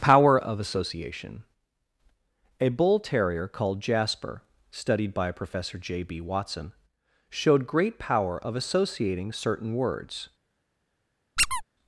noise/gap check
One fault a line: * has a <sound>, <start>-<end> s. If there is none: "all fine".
* has a squeak, 11.4-11.6 s